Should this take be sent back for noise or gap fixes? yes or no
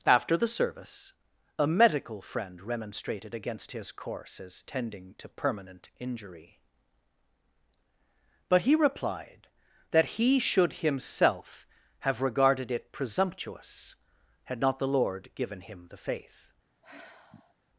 yes